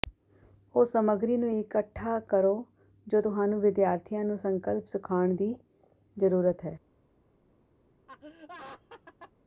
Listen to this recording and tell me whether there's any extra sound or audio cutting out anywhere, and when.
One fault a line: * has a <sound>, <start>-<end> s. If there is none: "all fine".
* has a laugh, 8.1-9.3 s